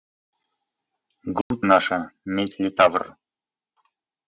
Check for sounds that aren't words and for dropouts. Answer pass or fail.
fail